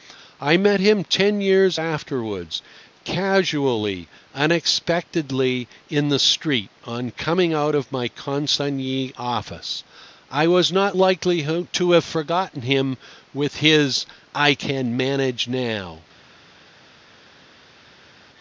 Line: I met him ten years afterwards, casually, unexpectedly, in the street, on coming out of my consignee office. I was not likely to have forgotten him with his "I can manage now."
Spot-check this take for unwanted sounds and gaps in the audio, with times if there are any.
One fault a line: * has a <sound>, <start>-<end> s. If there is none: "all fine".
all fine